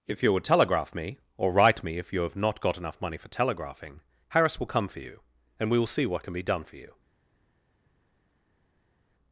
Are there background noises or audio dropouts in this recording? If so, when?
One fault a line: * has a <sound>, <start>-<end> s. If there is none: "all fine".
all fine